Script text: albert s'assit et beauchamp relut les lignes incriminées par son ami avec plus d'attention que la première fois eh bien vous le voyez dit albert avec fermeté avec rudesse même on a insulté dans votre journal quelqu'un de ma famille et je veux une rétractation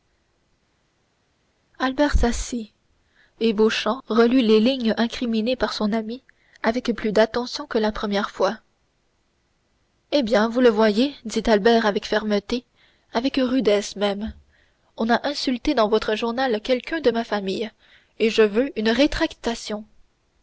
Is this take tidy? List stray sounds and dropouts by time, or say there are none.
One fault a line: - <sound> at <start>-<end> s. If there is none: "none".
none